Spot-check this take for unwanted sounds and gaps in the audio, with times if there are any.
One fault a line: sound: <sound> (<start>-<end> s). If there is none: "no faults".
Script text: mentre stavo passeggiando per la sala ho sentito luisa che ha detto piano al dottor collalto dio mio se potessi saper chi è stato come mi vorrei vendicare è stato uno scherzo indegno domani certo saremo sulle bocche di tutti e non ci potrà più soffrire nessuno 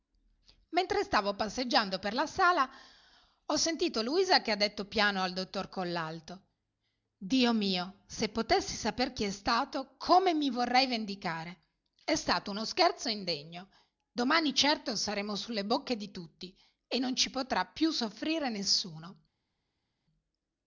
no faults